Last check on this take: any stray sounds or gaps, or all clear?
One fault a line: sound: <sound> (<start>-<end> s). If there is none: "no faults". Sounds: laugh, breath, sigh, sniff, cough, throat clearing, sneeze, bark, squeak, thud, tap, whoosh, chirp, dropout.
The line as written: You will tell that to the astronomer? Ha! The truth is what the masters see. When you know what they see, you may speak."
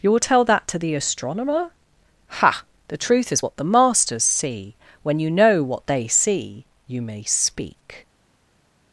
no faults